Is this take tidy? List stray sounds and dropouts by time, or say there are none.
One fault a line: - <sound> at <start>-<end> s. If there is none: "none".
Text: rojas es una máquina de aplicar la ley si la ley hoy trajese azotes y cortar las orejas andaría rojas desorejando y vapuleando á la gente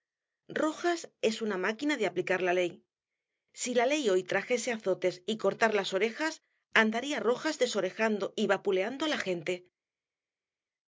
none